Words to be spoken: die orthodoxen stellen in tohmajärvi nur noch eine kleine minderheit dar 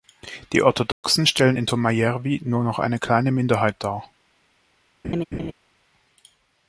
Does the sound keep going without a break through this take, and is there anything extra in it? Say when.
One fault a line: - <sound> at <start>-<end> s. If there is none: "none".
- dropout at 0.9-1.0 s
- laugh at 5.0-5.5 s